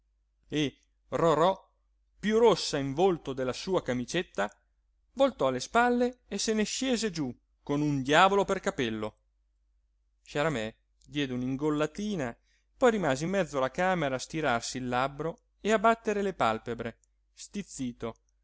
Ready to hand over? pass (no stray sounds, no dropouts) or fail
pass